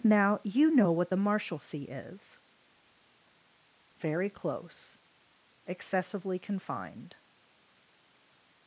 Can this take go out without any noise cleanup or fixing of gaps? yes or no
yes